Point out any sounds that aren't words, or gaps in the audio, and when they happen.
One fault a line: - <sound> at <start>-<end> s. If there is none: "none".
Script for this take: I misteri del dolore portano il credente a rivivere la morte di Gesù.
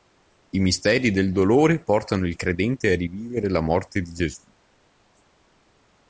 none